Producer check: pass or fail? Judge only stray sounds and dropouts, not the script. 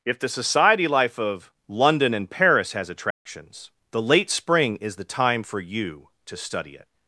fail